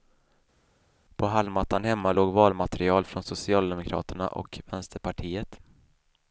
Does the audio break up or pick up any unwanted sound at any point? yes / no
no